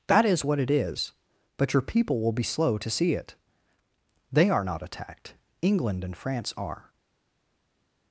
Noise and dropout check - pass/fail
pass